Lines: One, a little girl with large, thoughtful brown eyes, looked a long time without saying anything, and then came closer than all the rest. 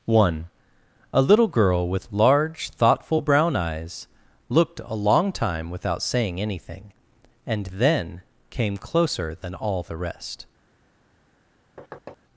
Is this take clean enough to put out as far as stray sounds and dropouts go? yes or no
no